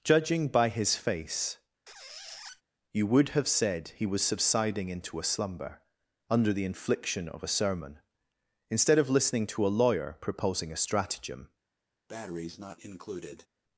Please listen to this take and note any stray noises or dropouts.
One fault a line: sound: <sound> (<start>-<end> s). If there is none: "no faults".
sound: squeak (1.9-2.6 s)
sound: breath (12.1-13.5 s)